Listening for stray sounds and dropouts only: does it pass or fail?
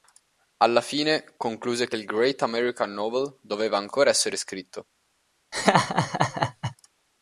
fail